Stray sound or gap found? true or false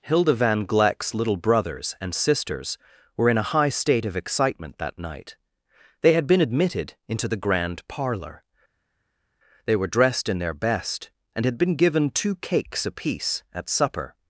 false